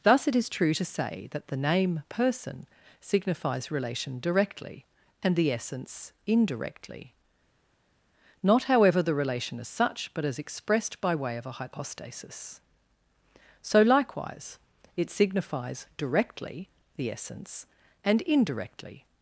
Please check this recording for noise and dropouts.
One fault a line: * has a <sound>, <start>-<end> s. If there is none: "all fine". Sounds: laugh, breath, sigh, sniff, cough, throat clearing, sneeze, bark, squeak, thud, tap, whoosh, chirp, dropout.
all fine